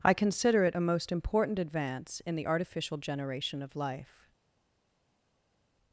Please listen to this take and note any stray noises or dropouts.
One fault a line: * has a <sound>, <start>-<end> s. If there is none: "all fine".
all fine